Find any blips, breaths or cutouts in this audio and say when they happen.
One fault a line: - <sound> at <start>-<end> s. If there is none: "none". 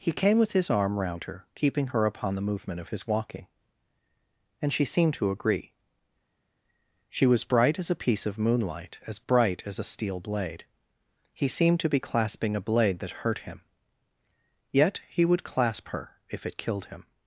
none